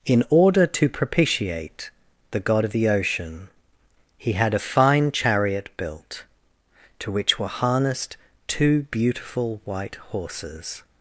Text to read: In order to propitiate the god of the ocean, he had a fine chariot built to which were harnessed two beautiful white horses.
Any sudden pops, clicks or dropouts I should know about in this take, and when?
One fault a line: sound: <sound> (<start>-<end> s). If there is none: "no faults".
no faults